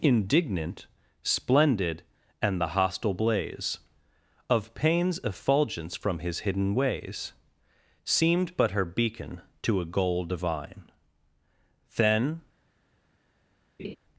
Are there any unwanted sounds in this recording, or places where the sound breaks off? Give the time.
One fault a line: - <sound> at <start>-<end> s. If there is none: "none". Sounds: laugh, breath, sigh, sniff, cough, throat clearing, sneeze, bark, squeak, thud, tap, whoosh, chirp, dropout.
- laugh at 13.8-14.0 s